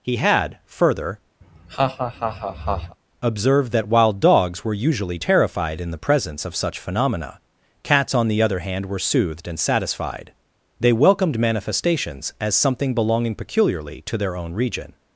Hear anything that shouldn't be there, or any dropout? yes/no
yes